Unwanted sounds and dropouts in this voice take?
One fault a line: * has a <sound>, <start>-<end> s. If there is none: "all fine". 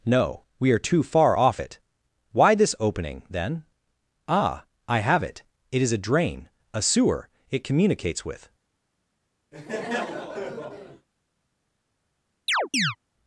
* has a laugh, 9.5-11.1 s
* has a chirp, 12.5-13.0 s